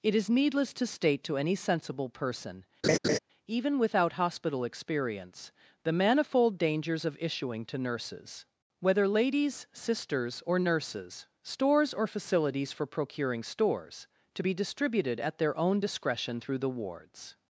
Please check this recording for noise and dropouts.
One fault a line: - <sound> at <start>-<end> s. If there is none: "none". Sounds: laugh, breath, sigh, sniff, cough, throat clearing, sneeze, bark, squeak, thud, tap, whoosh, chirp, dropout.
- laugh at 2.8-3.2 s